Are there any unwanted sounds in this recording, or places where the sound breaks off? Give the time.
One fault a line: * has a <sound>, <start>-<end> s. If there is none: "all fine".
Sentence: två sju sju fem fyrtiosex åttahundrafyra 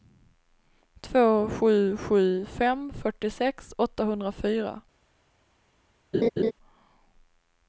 * has a laugh, 6.1-6.5 s